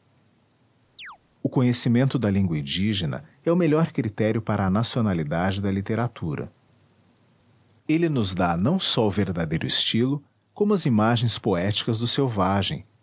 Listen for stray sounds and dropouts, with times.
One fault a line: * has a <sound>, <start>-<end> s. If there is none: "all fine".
* has a chirp, 1.0-1.2 s